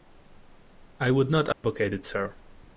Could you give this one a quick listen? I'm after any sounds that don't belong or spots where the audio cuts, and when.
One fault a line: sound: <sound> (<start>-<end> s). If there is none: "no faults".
sound: dropout (1.5-1.6 s)